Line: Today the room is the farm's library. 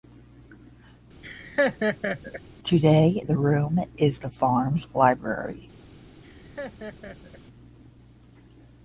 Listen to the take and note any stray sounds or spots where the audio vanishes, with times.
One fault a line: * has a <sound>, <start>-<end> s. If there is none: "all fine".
* has a laugh, 1.2-2.4 s
* has a laugh, 6.2-7.4 s